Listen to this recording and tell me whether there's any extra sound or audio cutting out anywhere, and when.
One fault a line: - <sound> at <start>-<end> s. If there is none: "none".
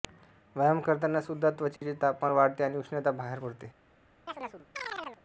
- dropout at 1.8-1.8 s
- chirp at 4.3-5.2 s